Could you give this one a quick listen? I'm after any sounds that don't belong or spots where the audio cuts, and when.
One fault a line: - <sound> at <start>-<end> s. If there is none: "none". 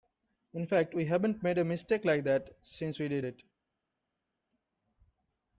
none